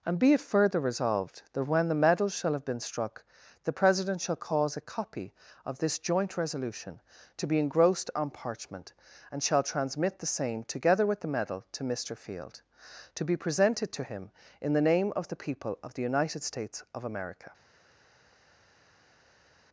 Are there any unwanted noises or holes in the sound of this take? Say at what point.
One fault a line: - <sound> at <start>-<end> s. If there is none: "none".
none